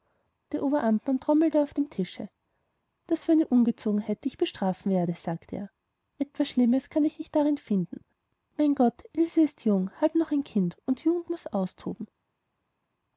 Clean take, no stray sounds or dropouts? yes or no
yes